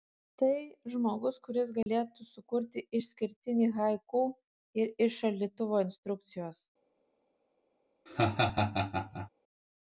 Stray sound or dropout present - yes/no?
yes